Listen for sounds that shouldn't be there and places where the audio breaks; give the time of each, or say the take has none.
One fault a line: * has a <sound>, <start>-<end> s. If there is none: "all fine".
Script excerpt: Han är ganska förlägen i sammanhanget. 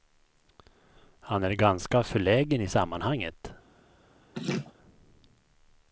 * has a laugh, 4.3-4.7 s